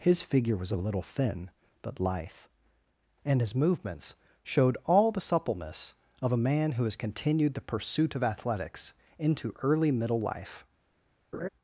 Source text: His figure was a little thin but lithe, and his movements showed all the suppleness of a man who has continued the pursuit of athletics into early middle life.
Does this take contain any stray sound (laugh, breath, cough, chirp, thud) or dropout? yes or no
yes